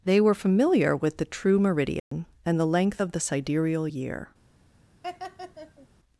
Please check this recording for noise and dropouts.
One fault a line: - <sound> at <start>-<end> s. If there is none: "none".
- dropout at 2.0-2.1 s
- laugh at 5.0-5.9 s